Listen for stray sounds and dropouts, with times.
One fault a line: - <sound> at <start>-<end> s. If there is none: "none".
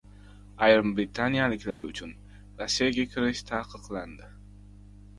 - dropout at 1.7-1.8 s